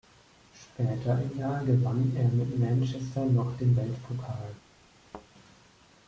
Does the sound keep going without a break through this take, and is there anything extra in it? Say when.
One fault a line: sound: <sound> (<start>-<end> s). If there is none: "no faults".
sound: thud (5.1-5.3 s)